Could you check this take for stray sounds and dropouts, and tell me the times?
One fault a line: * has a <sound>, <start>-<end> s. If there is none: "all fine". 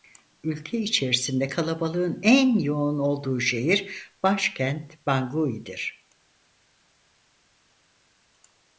all fine